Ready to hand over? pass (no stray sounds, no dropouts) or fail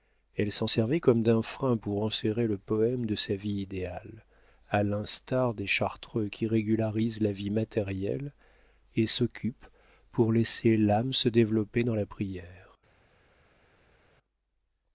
pass